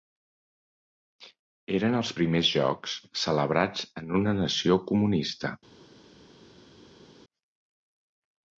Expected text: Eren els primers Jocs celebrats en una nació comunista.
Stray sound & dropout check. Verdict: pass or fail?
pass